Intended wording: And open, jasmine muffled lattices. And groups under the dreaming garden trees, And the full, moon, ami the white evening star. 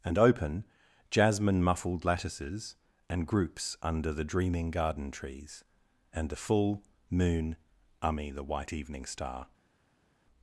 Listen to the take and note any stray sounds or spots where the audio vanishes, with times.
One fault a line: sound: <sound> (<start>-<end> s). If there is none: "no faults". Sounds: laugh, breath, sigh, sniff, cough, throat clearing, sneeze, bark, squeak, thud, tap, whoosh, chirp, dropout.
no faults